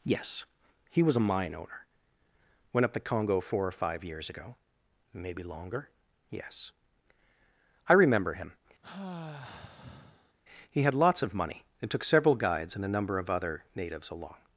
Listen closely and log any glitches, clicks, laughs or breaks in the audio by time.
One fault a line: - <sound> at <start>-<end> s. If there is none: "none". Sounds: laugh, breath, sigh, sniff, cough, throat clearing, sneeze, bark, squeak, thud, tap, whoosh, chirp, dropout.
- sigh at 8.8-10.3 s